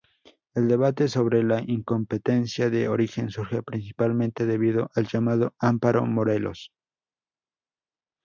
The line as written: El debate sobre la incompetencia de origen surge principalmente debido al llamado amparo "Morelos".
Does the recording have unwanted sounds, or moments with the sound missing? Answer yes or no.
no